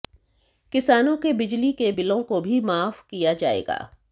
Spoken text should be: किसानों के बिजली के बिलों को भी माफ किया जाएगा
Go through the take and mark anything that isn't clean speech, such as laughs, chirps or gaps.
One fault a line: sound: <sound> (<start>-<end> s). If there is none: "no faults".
no faults